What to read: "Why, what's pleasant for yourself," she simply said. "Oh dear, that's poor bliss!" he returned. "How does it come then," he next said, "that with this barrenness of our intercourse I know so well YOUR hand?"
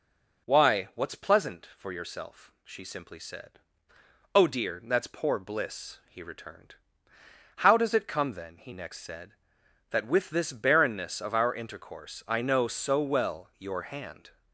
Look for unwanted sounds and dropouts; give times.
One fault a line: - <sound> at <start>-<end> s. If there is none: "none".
none